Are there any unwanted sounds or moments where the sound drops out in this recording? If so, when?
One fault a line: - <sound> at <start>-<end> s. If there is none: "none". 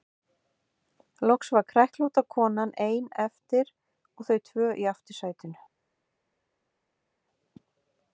none